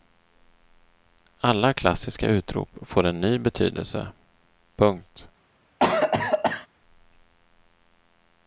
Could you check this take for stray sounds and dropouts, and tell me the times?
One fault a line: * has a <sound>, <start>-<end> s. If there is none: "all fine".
* has a cough, 5.8-6.7 s